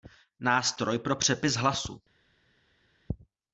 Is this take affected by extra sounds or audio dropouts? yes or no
no